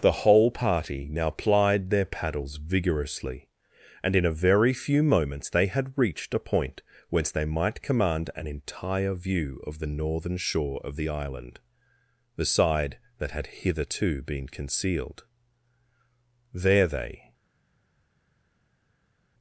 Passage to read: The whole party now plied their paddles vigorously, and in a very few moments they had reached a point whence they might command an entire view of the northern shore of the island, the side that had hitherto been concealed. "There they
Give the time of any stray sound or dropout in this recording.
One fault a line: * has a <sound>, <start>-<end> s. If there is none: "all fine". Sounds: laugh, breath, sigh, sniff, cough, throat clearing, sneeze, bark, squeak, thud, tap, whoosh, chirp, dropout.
all fine